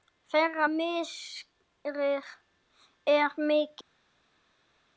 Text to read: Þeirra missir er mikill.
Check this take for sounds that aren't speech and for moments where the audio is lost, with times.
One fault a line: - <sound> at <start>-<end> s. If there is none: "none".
none